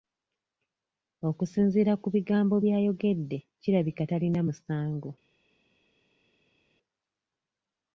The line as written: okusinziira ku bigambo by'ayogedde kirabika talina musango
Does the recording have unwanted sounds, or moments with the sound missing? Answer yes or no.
no